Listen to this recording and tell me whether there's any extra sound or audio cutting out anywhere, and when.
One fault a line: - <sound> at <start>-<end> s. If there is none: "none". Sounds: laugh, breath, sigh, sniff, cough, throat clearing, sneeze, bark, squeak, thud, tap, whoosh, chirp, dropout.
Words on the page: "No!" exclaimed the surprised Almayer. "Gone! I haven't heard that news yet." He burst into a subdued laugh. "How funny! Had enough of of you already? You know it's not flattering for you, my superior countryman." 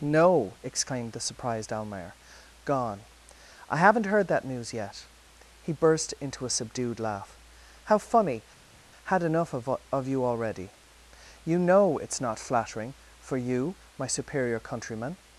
none